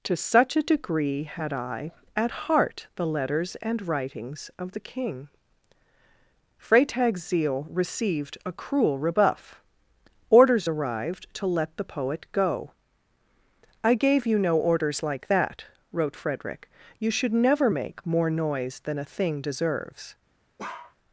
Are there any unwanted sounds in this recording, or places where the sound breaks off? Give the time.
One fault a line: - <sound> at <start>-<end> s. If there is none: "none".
- bark at 20.6-21.0 s